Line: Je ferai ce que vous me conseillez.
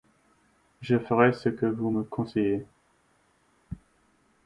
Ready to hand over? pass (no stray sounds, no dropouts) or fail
pass